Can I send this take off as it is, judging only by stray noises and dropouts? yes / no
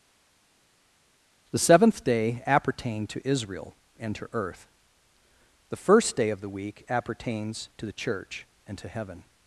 yes